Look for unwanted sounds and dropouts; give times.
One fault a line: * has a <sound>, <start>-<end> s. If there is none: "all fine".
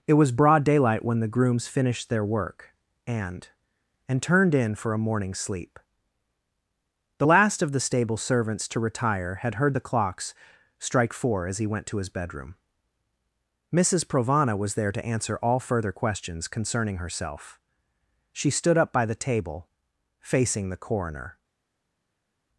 all fine